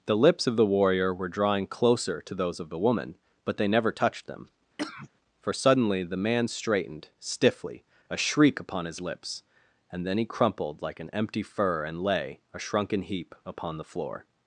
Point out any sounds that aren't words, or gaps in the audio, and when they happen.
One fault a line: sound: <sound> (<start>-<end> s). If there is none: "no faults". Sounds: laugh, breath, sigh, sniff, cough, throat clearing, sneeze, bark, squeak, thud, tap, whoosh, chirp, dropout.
sound: cough (4.8-5.1 s)